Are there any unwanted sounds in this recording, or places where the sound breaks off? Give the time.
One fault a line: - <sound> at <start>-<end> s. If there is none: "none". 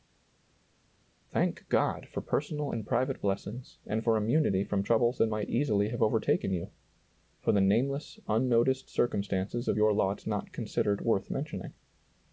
none